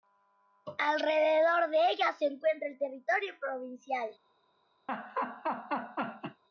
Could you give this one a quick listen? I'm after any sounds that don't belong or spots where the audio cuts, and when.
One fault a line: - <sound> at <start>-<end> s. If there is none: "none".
- laugh at 4.9-6.4 s